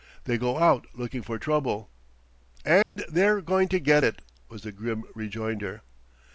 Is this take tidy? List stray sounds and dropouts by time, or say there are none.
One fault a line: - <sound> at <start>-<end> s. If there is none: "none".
- dropout at 2.8-3.0 s